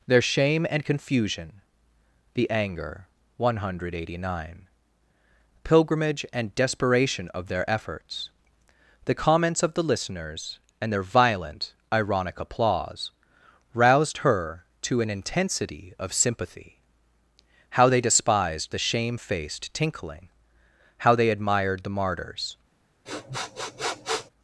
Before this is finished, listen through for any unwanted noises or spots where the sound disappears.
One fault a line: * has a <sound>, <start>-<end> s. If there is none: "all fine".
* has a sniff, 23.1-24.3 s